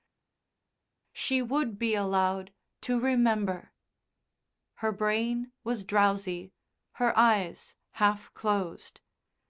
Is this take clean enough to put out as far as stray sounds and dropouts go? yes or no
yes